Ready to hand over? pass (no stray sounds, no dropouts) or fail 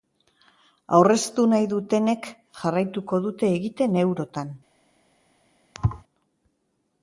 fail